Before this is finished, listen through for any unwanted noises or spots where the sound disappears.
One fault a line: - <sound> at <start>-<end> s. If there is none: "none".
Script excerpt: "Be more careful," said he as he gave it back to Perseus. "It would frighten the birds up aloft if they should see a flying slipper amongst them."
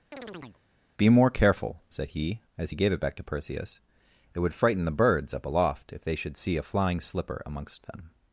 - chirp at 0.1-0.6 s